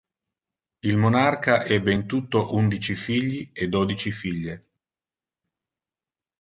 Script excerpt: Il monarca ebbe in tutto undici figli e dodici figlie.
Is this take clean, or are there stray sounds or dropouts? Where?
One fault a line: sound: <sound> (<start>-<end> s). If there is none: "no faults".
no faults